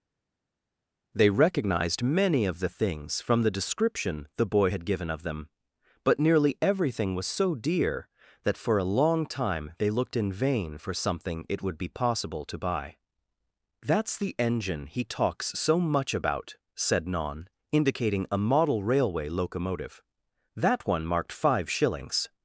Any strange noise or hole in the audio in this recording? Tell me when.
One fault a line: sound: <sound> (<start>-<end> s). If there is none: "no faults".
no faults